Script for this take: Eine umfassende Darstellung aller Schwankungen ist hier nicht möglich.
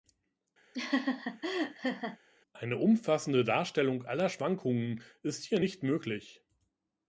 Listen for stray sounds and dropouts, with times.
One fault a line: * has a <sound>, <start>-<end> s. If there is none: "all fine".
* has a laugh, 0.7-2.2 s